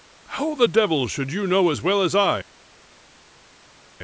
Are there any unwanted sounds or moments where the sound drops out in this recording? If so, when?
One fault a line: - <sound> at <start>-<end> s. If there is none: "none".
none